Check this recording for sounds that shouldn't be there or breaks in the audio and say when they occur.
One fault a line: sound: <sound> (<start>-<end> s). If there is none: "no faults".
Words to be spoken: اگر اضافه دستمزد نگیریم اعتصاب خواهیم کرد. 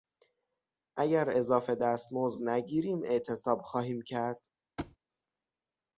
sound: thud (4.8-5.0 s)